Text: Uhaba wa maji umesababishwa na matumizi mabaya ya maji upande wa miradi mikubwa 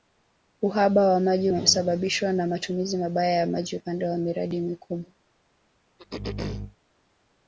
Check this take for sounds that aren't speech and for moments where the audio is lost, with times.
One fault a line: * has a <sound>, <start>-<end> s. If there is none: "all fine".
* has a throat clearing, 6.0-6.8 s